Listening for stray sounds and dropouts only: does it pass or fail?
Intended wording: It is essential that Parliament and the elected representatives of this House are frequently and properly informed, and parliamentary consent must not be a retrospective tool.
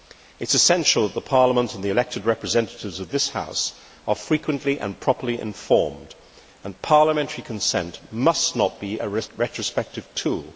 pass